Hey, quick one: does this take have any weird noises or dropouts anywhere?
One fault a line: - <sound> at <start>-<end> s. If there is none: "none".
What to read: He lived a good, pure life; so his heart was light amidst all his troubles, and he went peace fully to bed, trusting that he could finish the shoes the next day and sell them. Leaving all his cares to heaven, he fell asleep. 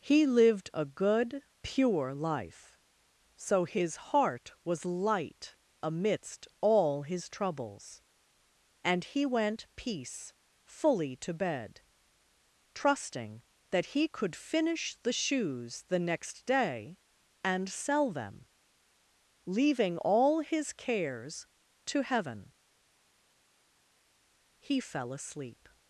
none